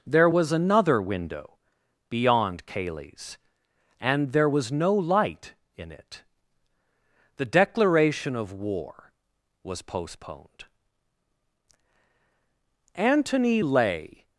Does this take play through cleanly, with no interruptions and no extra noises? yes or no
yes